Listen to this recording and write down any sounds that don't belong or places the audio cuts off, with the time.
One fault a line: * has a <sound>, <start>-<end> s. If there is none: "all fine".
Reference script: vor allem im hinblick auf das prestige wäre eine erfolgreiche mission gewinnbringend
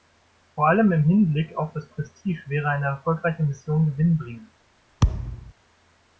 * has a thud, 5.0-5.5 s